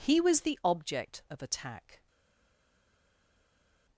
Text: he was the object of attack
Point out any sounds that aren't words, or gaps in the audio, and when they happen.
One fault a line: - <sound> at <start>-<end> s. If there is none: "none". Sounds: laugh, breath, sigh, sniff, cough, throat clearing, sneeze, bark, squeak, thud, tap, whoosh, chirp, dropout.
none